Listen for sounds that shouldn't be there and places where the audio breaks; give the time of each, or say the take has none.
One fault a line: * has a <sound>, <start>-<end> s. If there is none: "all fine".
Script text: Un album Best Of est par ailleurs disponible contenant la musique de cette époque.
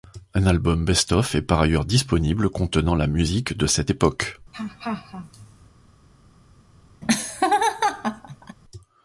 * has a laugh, 4.5-5.7 s
* has a laugh, 7.0-8.6 s